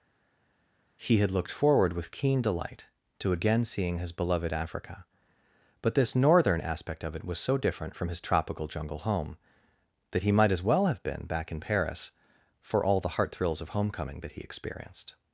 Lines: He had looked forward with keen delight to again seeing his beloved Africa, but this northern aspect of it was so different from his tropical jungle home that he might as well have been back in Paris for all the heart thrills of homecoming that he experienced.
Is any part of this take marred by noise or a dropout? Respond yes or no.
no